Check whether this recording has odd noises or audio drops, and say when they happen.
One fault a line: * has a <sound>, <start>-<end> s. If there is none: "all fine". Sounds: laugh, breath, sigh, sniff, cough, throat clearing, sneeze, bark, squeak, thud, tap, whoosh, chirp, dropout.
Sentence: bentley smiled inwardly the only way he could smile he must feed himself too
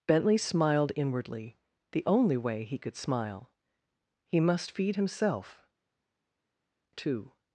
all fine